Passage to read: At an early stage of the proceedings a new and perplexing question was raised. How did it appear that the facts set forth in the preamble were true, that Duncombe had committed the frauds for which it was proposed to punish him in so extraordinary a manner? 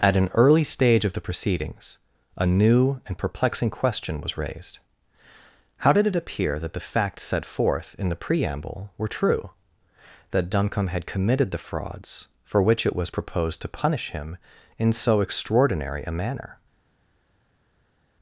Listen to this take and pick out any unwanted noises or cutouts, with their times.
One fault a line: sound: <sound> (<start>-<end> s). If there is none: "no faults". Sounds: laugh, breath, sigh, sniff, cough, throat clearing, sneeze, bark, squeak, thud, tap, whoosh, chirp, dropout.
no faults